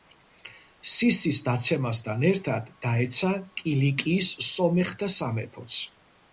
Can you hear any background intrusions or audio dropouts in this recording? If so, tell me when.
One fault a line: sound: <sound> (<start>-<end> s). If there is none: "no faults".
no faults